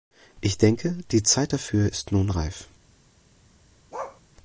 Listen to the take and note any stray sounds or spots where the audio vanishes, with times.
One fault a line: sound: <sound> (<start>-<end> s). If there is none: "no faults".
sound: bark (3.9-4.2 s)